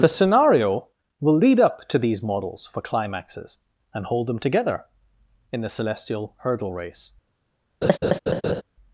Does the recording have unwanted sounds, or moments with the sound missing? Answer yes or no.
yes